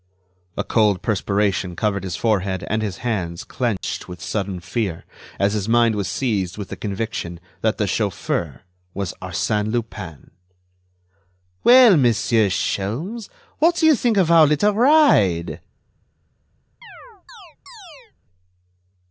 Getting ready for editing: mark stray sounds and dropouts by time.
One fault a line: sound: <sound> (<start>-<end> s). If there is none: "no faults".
sound: dropout (3.8-3.8 s)
sound: chirp (16.8-18.1 s)